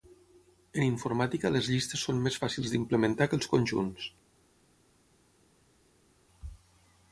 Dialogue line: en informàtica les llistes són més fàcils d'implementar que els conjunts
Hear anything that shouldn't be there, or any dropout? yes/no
no